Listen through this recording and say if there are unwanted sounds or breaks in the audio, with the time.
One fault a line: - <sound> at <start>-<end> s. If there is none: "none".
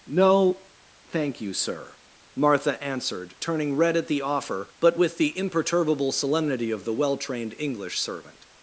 none